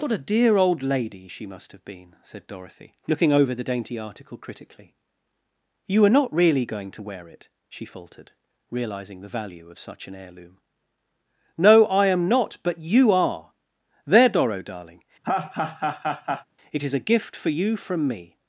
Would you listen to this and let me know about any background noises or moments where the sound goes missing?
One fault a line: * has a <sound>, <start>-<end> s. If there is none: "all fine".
* has a laugh, 15.2-16.4 s